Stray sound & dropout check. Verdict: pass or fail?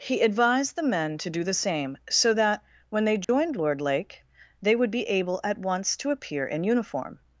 fail